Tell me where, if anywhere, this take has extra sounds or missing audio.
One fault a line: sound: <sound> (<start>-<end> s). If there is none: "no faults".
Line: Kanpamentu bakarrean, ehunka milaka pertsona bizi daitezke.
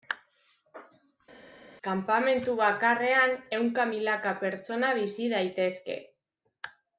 no faults